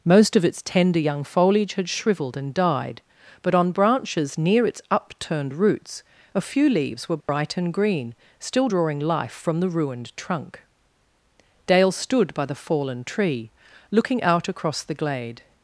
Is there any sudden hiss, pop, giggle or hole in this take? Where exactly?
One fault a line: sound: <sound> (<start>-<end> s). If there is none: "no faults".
sound: dropout (7.2-7.3 s)